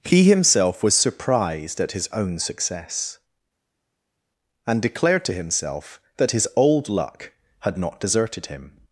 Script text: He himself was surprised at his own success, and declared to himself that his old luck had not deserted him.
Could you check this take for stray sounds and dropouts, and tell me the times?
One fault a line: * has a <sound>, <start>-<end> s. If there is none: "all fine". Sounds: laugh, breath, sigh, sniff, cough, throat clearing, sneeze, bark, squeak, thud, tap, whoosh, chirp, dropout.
all fine